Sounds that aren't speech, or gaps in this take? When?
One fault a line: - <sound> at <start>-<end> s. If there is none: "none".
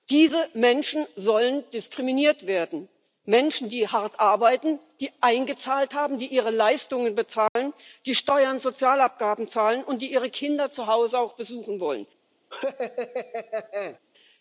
- dropout at 7.5-7.6 s
- laugh at 12.5-14.0 s